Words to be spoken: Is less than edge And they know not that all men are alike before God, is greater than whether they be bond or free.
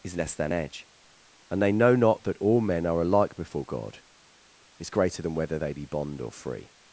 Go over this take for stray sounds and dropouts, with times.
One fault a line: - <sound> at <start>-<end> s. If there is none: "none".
none